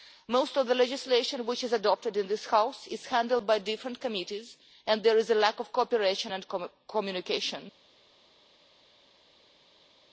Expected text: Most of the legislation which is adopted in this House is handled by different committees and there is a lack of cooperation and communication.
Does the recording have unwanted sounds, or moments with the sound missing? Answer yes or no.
no